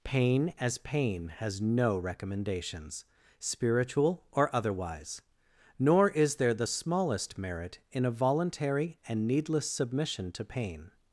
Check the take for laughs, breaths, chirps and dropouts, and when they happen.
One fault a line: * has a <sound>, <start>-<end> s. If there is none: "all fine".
all fine